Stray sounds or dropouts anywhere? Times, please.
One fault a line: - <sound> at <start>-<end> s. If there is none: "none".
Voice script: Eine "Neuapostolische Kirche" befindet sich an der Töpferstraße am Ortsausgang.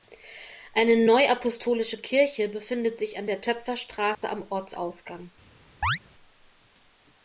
- dropout at 4.1-4.2 s
- chirp at 5.8-6.0 s